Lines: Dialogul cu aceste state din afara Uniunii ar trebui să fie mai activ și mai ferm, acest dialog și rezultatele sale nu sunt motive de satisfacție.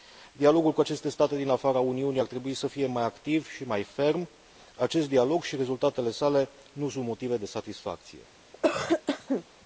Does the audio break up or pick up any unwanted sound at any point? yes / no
yes